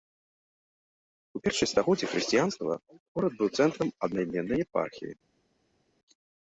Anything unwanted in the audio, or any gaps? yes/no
no